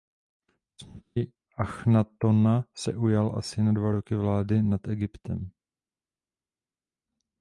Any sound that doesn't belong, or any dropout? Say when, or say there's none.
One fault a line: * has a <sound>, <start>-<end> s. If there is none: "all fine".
all fine